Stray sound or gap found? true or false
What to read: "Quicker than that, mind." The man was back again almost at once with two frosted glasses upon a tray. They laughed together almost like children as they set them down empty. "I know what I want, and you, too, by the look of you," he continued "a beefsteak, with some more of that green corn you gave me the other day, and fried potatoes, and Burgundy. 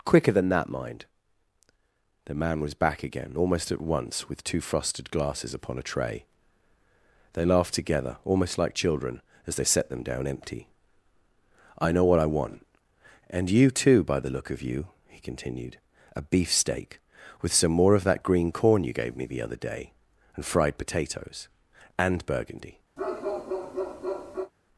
true